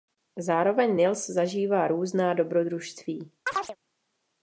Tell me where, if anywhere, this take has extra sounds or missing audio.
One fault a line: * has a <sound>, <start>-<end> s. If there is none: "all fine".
* has a chirp, 3.5-3.8 s